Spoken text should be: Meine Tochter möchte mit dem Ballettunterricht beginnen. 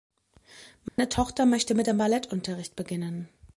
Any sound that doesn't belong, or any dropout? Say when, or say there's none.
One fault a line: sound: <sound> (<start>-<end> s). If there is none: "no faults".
sound: dropout (0.9-1.0 s)